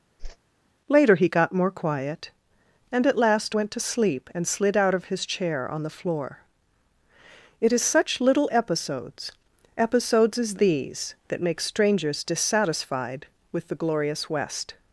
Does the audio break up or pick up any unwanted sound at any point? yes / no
yes